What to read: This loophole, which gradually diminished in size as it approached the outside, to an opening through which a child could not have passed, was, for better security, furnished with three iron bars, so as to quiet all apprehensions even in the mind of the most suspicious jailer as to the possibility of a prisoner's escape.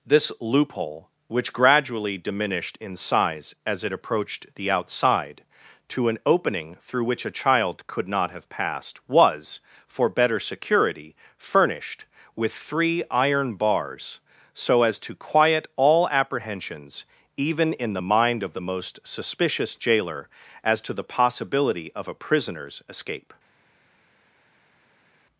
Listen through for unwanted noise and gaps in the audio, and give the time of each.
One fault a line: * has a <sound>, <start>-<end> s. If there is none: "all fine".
all fine